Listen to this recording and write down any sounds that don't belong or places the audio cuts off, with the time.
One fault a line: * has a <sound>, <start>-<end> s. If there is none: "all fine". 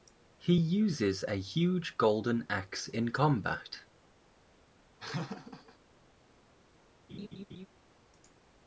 * has a laugh, 5.0-5.8 s
* has a laugh, 7.1-7.7 s